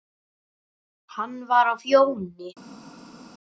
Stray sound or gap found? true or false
false